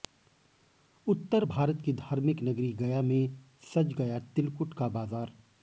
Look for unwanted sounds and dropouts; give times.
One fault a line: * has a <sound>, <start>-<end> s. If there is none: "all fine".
all fine